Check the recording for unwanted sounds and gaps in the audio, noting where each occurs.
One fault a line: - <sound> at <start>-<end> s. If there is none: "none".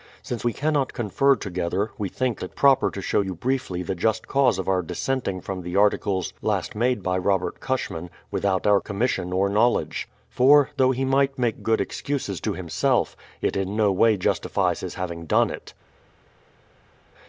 none